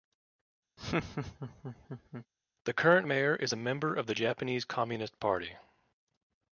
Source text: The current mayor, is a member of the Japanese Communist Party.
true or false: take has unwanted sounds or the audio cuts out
true